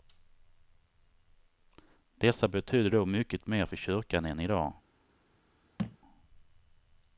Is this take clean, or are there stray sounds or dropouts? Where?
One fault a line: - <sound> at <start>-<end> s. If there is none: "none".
- thud at 5.8-6.0 s